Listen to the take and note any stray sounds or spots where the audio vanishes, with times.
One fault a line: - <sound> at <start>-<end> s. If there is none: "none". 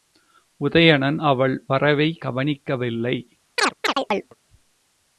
- chirp at 3.6-4.4 s